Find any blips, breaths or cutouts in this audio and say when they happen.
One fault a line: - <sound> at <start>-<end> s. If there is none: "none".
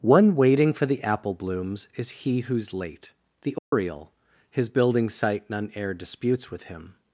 - dropout at 3.6-3.7 s